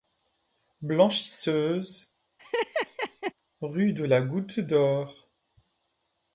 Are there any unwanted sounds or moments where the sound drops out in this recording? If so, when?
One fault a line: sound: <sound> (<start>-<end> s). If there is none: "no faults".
sound: laugh (2.4-3.3 s)